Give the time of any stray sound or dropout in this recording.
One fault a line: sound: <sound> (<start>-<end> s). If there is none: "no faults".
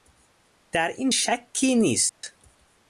sound: dropout (2.1-2.2 s)